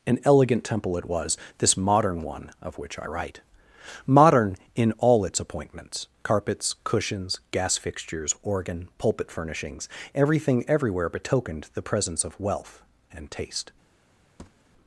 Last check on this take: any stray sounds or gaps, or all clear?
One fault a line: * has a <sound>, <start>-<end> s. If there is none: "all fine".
* has a thud, 14.4-14.7 s